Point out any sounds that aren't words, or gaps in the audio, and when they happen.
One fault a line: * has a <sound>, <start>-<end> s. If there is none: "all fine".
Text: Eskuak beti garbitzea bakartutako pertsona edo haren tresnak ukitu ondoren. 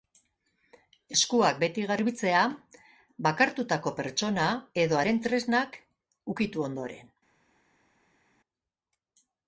all fine